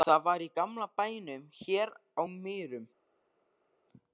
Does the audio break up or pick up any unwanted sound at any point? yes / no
no